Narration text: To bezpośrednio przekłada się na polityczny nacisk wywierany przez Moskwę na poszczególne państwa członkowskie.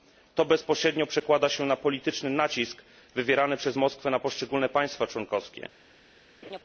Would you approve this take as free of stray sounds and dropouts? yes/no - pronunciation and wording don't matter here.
no